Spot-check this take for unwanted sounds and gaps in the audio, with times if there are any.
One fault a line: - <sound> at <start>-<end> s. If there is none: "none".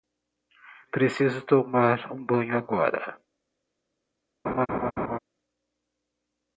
- laugh at 4.4-5.2 s